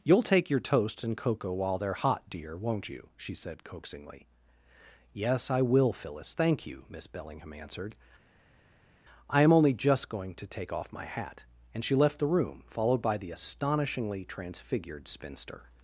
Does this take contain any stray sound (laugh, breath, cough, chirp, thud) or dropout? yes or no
no